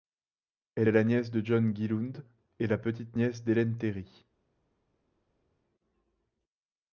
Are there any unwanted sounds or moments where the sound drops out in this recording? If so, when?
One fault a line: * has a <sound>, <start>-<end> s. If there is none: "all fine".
all fine